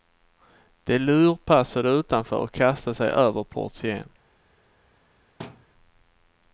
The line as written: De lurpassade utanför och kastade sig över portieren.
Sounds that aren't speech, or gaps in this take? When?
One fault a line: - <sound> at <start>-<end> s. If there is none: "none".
- thud at 5.4-5.7 s